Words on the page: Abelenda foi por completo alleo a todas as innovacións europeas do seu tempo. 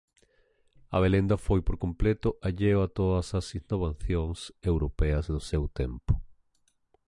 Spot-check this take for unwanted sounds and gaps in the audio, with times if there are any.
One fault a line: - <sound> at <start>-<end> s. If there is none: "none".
none